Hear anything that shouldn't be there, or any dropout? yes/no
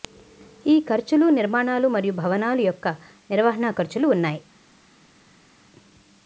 no